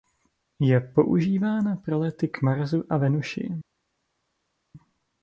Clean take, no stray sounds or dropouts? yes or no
yes